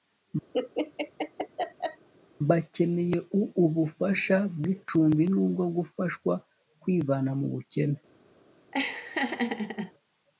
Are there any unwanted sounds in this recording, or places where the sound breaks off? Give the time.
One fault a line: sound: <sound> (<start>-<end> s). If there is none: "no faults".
sound: laugh (0.5-2.1 s)
sound: laugh (8.7-9.9 s)